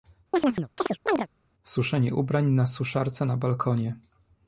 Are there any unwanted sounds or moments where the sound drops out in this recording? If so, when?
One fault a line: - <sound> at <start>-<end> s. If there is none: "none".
- chirp at 0.3-1.3 s